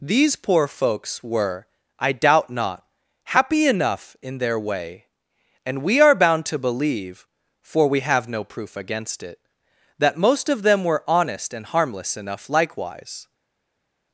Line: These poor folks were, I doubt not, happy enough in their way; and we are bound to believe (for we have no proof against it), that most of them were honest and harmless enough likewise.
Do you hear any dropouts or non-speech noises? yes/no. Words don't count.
no